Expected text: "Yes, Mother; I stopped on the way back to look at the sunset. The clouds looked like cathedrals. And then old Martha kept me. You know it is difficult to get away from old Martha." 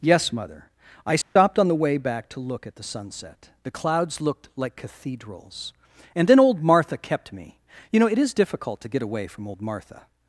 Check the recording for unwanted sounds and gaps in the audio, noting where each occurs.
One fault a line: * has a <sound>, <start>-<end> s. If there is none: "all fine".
* has a dropout, 1.2-1.4 s